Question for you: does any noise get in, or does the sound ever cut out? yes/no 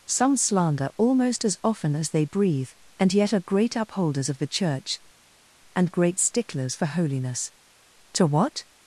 no